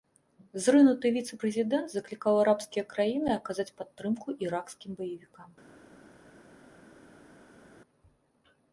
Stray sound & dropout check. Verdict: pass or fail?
pass